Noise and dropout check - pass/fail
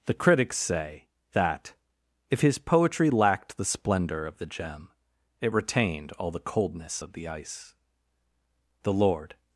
pass